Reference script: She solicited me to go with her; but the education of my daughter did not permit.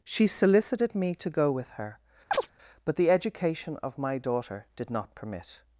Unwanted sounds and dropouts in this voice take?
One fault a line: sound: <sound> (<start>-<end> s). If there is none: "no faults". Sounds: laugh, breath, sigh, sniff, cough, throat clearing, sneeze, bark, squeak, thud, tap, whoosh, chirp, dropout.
sound: chirp (2.3-2.5 s)